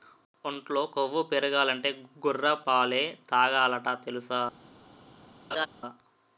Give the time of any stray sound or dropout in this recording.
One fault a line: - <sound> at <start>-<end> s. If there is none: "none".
- laugh at 5.5-5.7 s